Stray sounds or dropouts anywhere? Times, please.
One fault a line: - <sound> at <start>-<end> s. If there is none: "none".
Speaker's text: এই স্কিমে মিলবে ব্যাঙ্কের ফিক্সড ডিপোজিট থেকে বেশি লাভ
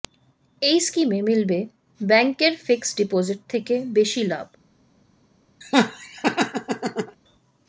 - laugh at 5.6-7.2 s